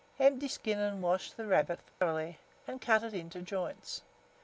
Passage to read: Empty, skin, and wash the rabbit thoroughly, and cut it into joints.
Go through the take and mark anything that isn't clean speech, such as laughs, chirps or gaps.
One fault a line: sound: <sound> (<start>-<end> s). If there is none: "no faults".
sound: dropout (1.9-2.0 s)